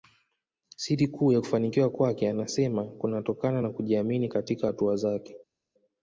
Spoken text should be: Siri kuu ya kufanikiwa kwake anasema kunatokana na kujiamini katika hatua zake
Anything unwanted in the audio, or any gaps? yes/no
no